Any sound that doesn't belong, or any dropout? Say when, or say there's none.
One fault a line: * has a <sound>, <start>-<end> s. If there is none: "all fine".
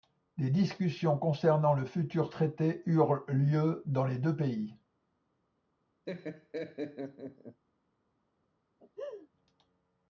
* has a laugh, 6.1-7.6 s
* has a laugh, 8.8-9.3 s